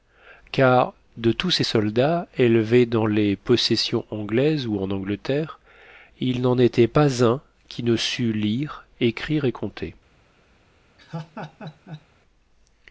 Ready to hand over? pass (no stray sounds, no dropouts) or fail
fail